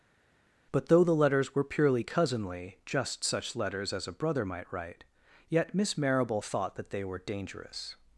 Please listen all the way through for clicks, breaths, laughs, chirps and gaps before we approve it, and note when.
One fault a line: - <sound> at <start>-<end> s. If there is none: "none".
none